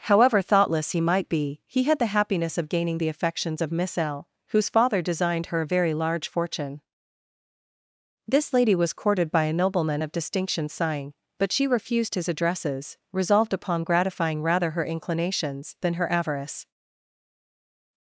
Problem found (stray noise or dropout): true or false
false